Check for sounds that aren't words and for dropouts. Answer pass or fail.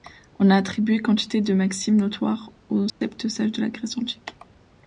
fail